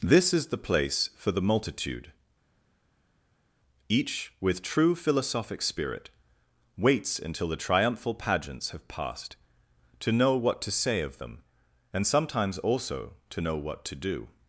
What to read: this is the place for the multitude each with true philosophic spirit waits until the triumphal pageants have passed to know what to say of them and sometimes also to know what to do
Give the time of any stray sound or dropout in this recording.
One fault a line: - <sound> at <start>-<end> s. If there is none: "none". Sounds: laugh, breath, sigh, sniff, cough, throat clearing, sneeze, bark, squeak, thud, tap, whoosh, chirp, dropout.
none